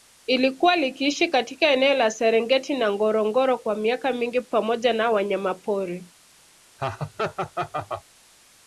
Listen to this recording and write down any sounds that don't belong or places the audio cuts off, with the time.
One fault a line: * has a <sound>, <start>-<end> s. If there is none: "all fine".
* has a laugh, 6.8-8.0 s